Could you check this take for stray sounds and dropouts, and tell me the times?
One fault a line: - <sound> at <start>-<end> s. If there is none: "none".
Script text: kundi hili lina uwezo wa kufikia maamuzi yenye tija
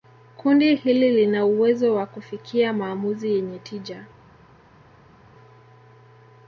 none